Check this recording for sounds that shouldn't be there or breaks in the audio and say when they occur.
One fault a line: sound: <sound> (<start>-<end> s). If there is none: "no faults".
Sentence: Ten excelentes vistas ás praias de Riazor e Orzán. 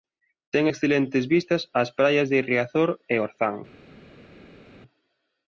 no faults